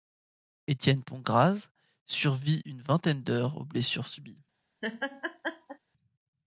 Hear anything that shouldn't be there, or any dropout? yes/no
yes